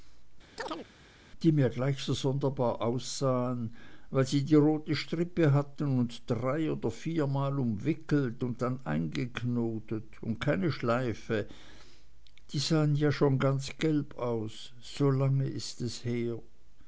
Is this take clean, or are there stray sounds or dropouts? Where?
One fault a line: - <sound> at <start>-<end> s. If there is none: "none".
- chirp at 0.6-0.9 s